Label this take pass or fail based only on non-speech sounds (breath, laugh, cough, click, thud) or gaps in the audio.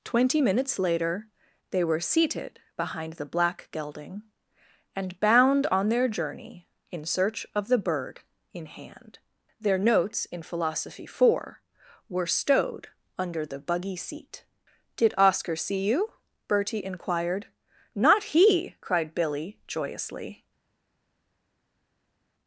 pass